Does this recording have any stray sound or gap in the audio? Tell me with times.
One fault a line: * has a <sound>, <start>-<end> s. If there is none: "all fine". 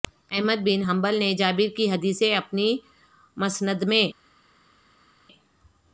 all fine